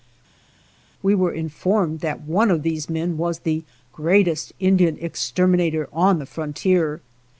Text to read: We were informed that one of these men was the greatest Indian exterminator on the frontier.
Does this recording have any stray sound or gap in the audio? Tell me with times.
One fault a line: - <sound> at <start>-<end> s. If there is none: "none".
none